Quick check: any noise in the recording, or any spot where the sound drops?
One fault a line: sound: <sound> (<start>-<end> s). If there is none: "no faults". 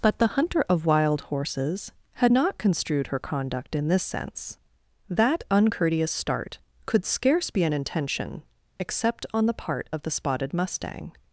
no faults